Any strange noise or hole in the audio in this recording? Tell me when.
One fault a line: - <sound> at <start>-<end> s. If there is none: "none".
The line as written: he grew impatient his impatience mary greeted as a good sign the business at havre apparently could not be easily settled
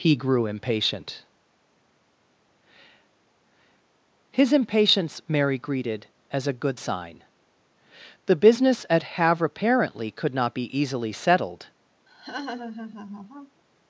- laugh at 12.1-13.6 s